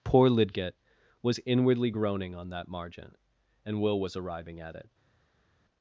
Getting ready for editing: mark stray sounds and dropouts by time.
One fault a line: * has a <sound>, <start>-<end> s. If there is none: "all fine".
all fine